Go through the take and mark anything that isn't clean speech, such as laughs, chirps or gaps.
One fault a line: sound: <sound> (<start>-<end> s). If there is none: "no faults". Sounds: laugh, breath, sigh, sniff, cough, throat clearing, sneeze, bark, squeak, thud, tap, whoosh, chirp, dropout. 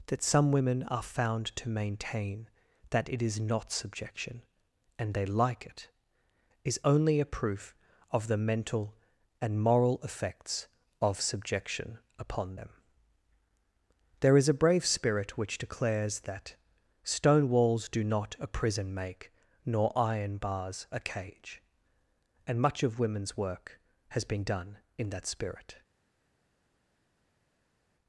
no faults